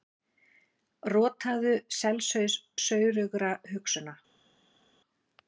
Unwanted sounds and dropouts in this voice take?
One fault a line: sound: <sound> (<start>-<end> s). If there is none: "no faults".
no faults